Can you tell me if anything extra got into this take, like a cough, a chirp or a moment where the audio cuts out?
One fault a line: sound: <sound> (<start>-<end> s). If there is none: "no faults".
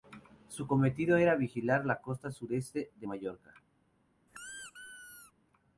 sound: squeak (4.3-5.3 s)